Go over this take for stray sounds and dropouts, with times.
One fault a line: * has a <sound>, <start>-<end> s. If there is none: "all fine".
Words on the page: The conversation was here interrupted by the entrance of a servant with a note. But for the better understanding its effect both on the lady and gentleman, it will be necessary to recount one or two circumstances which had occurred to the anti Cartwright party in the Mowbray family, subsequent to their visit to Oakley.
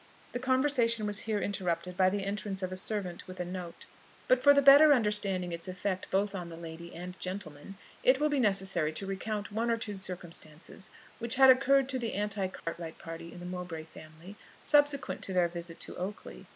* has a dropout, 12.6-12.7 s